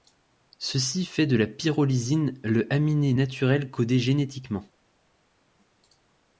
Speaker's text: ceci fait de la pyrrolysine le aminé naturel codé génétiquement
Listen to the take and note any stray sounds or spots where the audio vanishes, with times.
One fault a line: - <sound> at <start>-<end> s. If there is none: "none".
none